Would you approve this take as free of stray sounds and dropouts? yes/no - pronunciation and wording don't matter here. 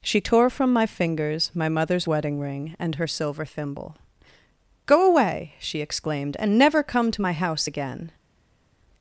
yes